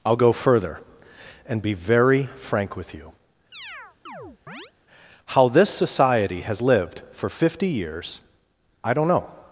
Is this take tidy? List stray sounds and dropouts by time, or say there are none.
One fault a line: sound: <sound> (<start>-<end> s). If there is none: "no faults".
sound: chirp (3.5-4.7 s)